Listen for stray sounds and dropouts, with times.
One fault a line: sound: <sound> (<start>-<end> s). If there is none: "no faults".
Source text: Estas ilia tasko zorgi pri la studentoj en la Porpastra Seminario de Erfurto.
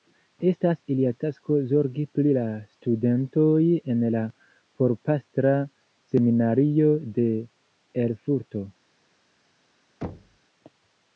sound: thud (10.0-10.4 s)